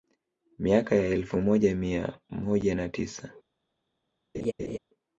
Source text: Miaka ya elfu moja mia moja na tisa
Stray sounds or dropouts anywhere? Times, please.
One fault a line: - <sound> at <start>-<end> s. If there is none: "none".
- laugh at 4.3-4.8 s